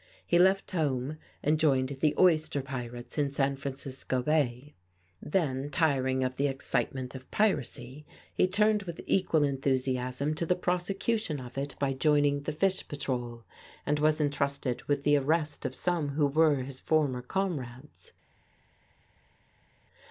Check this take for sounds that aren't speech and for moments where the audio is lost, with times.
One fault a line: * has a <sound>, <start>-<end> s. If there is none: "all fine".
all fine